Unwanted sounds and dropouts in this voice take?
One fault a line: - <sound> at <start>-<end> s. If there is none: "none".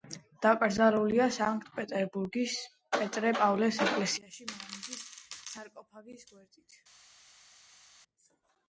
none